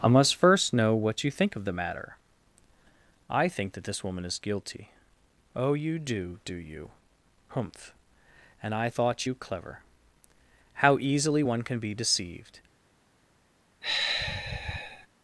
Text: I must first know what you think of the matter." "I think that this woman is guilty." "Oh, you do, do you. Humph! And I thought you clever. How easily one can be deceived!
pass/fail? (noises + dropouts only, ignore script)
fail